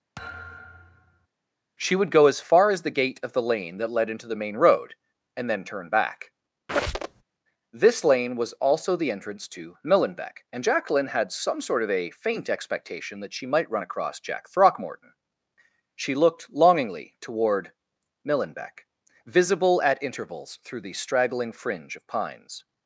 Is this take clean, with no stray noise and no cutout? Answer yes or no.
no